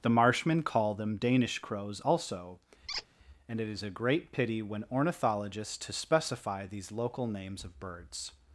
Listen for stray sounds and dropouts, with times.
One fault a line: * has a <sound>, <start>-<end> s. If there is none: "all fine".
* has a squeak, 2.9-3.1 s